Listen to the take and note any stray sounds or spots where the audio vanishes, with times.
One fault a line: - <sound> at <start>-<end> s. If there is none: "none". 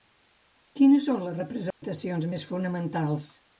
- dropout at 1.7-1.8 s